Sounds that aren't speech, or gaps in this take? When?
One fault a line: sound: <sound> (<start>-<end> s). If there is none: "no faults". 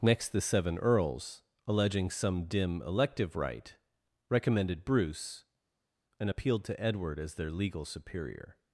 no faults